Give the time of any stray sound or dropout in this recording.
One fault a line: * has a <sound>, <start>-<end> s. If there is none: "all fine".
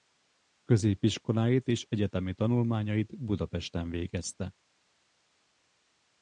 all fine